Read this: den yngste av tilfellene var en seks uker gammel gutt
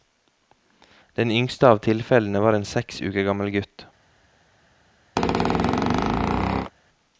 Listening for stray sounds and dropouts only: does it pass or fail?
fail